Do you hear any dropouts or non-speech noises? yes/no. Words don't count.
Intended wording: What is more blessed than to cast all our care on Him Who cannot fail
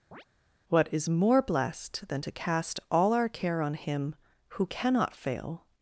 yes